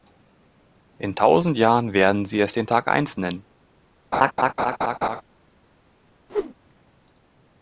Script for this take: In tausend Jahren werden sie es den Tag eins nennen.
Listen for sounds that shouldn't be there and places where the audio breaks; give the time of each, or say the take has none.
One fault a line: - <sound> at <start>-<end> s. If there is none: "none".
- laugh at 4.1-5.2 s
- whoosh at 6.3-6.5 s